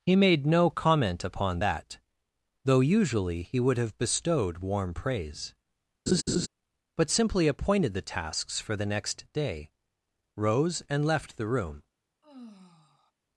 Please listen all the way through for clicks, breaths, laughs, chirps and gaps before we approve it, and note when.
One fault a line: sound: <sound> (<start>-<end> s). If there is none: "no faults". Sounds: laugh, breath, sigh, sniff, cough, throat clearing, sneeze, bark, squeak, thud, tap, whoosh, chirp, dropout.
sound: laugh (6.1-6.5 s)
sound: sigh (12.2-13.1 s)